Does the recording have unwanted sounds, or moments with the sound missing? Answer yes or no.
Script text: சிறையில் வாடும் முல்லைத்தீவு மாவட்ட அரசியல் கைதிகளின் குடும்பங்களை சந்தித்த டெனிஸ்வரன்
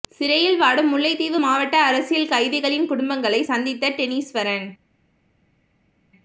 no